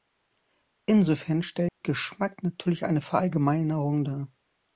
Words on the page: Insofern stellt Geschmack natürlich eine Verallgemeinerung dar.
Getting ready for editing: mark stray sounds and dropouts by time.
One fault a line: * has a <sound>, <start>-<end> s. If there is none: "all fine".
* has a dropout, 1.7-1.8 s